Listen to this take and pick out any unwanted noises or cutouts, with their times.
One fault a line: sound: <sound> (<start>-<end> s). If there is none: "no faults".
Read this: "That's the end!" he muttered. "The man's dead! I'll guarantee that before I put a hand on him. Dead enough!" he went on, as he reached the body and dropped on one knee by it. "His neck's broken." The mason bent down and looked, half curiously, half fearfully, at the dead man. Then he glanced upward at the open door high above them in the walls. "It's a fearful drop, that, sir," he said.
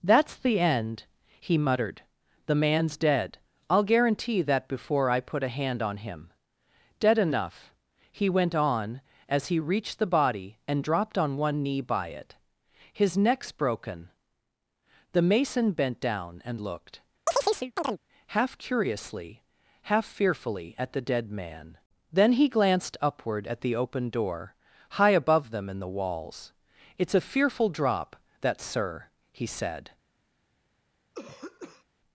sound: chirp (17.3-18.0 s)
sound: throat clearing (31.1-31.8 s)